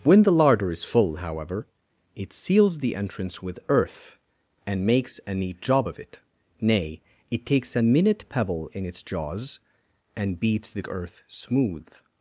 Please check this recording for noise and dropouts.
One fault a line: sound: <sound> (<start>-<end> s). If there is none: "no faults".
no faults